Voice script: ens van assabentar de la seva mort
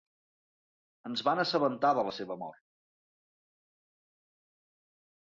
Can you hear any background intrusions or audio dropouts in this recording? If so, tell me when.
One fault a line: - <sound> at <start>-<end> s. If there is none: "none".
none